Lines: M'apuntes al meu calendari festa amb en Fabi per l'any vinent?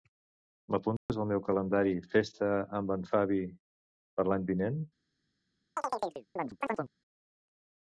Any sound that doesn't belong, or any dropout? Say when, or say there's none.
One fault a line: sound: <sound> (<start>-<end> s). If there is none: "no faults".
sound: dropout (1.0-1.1 s)
sound: chirp (5.8-6.9 s)